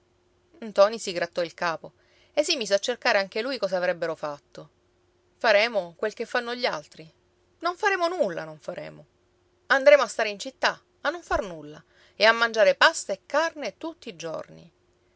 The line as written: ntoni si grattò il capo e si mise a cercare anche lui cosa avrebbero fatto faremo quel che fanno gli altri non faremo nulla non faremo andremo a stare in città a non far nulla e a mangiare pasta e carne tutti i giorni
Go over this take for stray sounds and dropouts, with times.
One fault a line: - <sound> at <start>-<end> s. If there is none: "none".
none